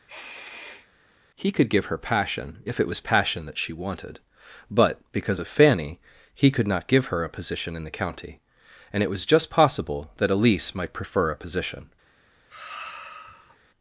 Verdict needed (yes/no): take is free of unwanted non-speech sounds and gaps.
no